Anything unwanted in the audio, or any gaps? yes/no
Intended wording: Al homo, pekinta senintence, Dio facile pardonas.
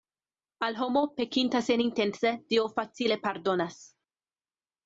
no